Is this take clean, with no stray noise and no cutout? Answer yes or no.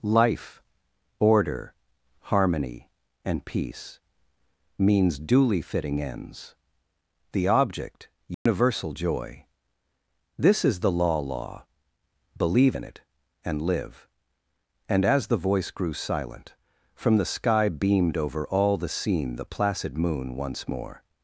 no